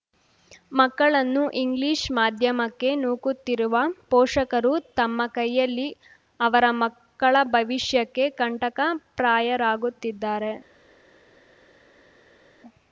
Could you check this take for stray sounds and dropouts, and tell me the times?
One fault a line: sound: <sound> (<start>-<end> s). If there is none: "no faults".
no faults